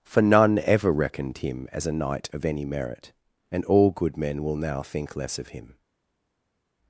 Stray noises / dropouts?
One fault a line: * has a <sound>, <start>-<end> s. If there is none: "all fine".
all fine